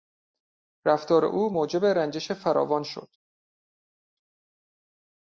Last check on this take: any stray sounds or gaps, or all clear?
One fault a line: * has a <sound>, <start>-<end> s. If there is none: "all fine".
all fine